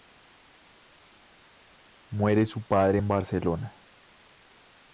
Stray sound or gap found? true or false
false